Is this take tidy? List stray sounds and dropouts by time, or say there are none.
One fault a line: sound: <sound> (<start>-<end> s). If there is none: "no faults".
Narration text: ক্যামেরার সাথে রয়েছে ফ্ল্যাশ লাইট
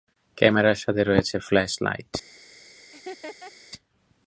sound: laugh (2.9-3.5 s)